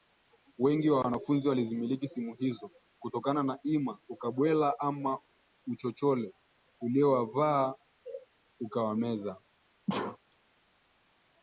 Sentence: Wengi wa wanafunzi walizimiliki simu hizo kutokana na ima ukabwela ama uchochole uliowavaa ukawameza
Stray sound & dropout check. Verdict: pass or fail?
fail